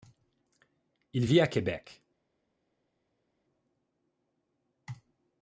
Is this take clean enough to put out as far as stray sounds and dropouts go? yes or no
yes